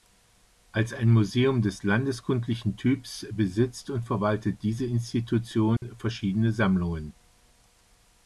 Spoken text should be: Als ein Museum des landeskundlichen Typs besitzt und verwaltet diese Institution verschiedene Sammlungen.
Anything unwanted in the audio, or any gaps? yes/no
yes